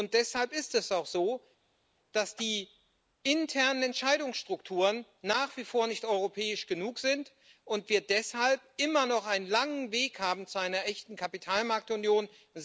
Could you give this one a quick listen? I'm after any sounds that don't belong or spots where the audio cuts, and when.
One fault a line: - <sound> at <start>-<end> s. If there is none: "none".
none